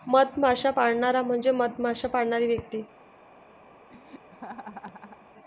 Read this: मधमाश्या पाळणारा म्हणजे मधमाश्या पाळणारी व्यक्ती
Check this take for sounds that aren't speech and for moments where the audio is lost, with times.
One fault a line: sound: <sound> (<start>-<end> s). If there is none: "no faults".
sound: laugh (3.9-5.3 s)